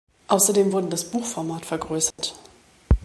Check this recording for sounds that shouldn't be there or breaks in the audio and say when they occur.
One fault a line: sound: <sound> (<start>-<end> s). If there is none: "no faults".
sound: dropout (2.1-2.2 s)